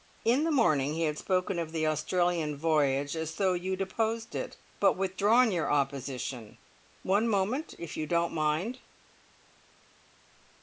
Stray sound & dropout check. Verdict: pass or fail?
pass